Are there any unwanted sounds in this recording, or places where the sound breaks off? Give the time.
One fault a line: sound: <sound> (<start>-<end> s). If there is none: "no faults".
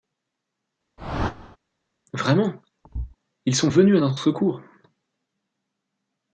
sound: whoosh (1.0-1.6 s)
sound: thud (2.8-3.2 s)